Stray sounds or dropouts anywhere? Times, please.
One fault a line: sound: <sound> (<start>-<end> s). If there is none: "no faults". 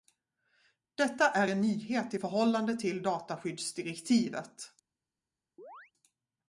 sound: chirp (5.6-5.9 s)